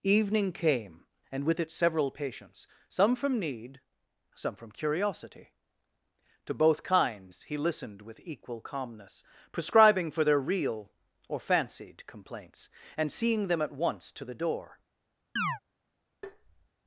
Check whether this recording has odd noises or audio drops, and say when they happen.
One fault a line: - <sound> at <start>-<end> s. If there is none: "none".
- chirp at 15.4-15.6 s
- tap at 16.2-16.7 s